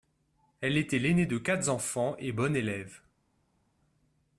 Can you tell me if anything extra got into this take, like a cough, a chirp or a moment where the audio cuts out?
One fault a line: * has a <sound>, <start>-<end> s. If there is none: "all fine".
all fine